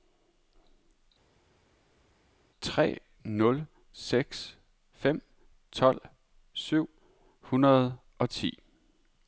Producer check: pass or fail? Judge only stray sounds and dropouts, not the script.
pass